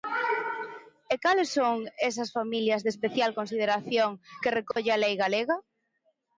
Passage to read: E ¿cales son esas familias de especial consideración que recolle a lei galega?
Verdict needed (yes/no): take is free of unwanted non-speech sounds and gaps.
no